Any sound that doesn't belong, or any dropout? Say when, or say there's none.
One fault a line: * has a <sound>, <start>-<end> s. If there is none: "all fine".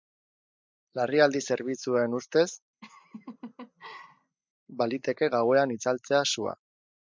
* has a laugh, 2.8-4.4 s